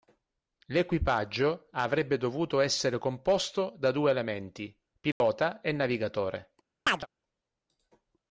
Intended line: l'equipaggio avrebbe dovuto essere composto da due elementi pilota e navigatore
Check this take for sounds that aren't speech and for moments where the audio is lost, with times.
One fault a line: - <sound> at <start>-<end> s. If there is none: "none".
- dropout at 5.1-5.2 s
- chirp at 6.9-7.1 s